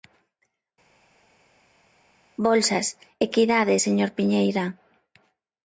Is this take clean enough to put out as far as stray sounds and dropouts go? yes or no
yes